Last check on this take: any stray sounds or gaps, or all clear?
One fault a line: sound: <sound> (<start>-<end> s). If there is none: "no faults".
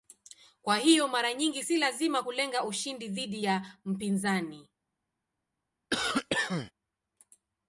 sound: cough (5.9-6.7 s)